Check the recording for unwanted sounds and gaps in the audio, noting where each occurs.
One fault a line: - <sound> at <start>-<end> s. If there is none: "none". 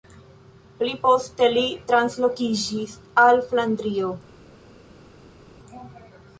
none